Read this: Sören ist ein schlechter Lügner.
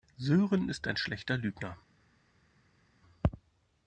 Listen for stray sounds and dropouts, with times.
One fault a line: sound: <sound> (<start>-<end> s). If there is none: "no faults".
no faults